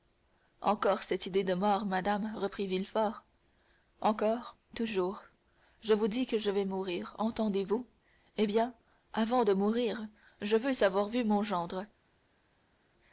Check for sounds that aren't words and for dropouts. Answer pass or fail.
pass